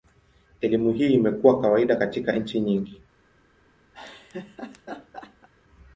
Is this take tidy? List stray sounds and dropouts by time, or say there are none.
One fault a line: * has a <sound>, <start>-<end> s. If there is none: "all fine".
* has a laugh, 3.9-5.5 s